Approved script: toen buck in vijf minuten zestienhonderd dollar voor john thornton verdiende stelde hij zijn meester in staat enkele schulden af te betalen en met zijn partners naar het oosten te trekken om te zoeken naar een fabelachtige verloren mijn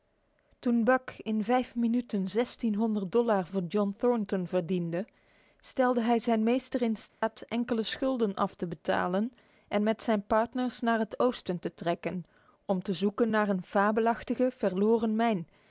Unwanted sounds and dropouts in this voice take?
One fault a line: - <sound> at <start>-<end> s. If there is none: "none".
- dropout at 7.1-7.2 s